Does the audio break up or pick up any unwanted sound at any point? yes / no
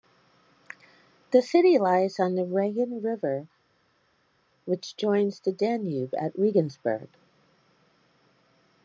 no